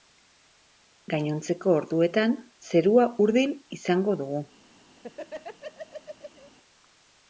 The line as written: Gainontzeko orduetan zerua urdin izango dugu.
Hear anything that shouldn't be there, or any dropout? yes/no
yes